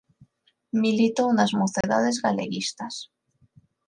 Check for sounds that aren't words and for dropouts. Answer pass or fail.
fail